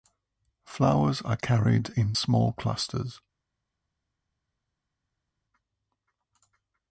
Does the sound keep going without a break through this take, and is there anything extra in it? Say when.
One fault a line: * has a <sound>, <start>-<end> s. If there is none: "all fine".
all fine